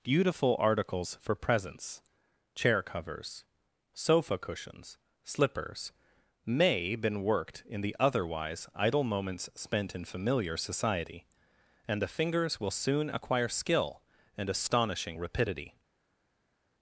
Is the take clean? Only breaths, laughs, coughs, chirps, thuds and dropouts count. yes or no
yes